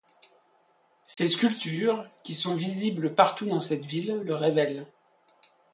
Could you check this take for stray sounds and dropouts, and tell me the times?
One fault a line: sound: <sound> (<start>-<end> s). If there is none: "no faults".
sound: dropout (1.1-1.2 s)